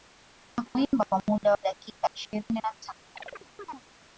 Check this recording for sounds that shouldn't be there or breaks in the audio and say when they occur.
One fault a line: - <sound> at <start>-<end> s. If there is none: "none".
- chirp at 3.2-3.8 s